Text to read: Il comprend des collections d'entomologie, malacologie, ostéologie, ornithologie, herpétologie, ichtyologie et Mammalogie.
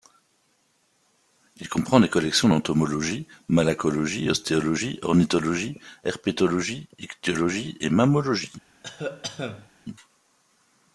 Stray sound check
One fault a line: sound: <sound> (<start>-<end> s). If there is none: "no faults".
sound: cough (8.8-9.7 s)